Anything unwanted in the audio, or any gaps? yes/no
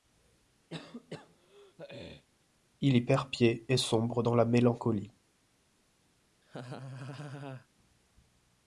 yes